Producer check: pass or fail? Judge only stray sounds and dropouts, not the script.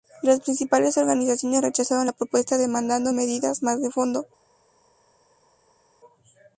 pass